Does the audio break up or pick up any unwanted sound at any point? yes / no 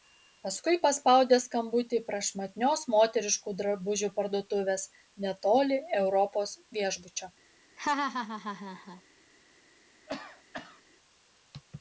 yes